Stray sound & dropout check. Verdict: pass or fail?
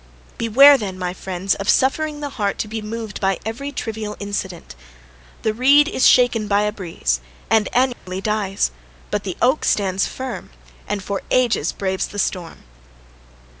fail